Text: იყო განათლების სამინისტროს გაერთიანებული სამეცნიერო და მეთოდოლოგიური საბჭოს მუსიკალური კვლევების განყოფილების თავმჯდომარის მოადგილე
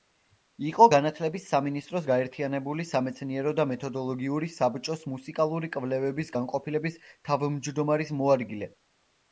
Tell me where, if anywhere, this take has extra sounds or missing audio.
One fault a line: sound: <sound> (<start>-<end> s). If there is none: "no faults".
no faults